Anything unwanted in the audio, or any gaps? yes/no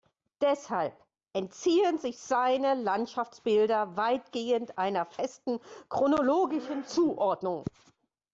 no